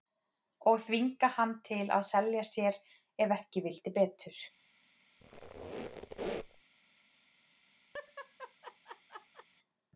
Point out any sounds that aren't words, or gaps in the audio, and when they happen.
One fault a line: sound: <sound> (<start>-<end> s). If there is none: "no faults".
sound: squeak (5.2-6.6 s)
sound: laugh (7.9-9.5 s)